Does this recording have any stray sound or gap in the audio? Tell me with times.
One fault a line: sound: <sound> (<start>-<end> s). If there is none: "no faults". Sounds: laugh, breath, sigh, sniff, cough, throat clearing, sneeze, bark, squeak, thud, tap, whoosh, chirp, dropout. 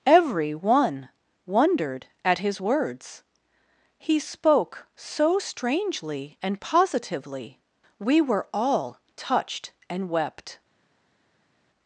no faults